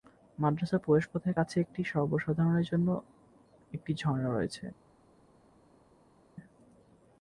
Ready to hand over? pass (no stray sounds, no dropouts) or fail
pass